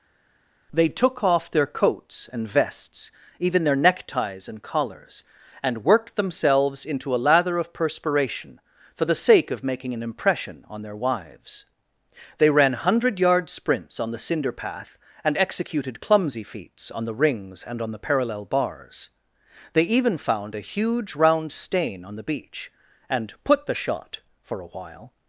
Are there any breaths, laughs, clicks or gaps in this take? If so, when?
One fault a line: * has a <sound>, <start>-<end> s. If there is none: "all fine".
all fine